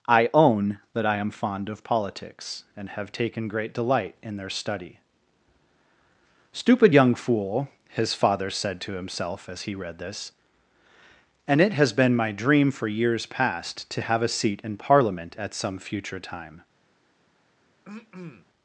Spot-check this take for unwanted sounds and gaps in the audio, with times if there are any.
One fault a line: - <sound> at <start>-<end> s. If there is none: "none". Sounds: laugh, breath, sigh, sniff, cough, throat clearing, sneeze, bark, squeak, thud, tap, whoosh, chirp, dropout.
- throat clearing at 17.8-18.5 s